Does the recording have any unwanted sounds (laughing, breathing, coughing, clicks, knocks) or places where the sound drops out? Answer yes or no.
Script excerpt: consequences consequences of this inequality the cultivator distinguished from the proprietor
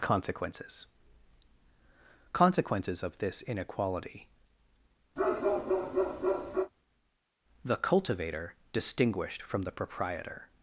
yes